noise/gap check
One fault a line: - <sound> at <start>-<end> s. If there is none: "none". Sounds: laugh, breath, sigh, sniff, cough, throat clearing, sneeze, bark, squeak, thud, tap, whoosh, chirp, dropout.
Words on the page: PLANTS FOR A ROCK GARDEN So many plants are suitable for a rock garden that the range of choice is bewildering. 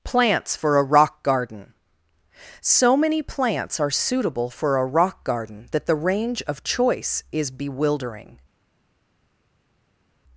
none